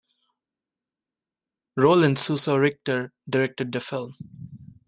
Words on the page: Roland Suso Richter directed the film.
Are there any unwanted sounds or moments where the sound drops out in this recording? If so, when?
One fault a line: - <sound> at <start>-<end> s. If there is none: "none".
none